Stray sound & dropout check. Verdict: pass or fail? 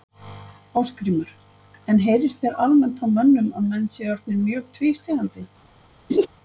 fail